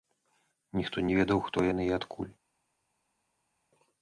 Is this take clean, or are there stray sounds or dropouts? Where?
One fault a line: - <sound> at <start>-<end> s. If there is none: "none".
none